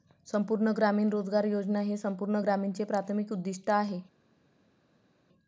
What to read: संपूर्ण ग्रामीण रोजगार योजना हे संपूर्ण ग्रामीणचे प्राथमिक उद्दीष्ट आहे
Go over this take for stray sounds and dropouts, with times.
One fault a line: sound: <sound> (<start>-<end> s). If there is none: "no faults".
no faults